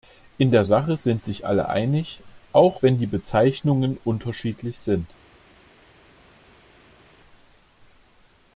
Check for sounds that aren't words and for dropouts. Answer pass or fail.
pass